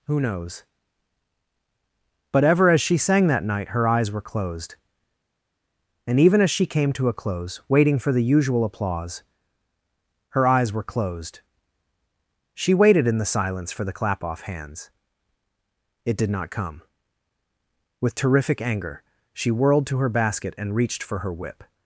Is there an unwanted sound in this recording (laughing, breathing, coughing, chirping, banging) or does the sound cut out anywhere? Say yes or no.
no